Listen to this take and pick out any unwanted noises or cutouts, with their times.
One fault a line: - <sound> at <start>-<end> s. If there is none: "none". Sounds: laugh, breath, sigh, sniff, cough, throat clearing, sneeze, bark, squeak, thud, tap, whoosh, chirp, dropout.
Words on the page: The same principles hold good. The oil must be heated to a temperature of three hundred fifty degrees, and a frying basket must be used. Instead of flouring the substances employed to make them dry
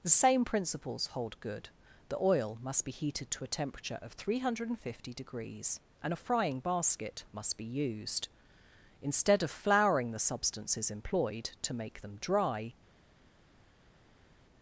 none